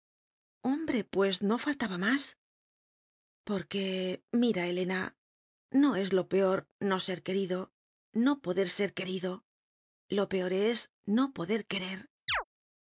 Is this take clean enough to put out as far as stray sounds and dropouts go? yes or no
no